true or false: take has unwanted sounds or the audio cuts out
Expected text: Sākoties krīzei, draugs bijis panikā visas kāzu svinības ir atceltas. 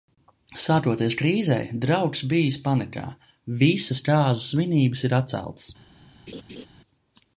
true